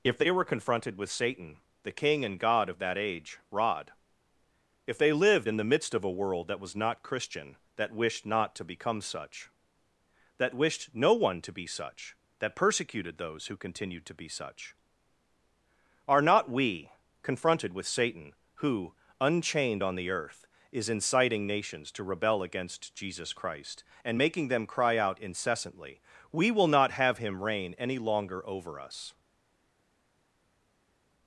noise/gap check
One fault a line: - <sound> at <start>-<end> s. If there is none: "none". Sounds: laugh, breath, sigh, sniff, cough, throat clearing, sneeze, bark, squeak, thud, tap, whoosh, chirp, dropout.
none